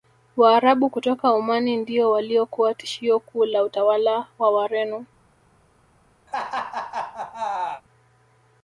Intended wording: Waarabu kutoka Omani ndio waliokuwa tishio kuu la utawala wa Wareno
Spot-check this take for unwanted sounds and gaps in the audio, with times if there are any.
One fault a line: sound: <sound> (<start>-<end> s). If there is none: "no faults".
sound: laugh (6.3-7.8 s)